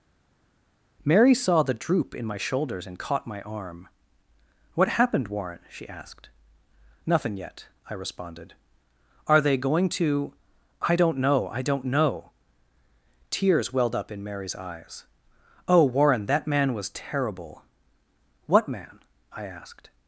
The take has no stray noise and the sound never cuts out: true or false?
true